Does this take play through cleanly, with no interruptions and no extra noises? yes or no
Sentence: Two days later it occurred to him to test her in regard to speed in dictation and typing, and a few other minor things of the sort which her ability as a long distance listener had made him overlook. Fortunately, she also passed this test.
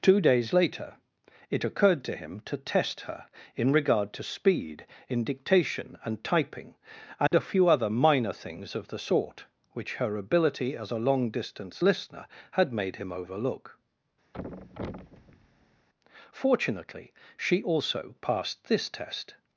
no